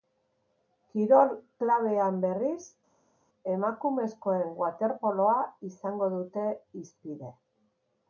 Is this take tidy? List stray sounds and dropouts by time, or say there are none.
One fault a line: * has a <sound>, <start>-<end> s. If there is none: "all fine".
all fine